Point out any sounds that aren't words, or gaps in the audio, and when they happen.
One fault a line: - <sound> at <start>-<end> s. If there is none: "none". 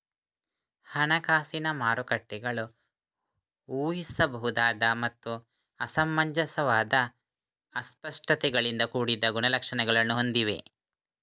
none